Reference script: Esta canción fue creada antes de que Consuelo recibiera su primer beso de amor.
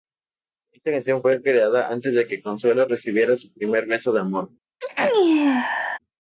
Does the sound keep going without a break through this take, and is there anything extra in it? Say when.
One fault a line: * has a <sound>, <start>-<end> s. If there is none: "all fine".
* has a sneeze, 4.8-6.0 s